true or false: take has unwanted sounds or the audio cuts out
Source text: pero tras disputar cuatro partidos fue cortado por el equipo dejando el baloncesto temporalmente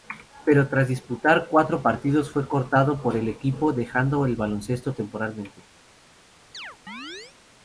true